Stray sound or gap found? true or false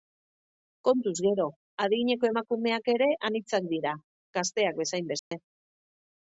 true